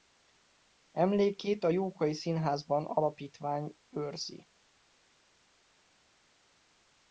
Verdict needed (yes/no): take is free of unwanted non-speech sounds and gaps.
yes